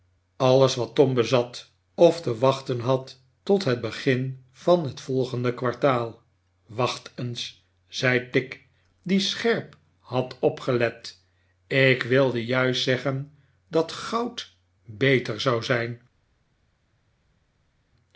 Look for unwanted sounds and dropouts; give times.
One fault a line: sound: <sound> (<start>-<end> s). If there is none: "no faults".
no faults